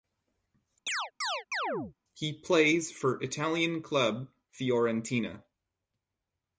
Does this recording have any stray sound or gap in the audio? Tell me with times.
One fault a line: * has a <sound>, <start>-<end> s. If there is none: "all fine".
* has a chirp, 0.9-1.9 s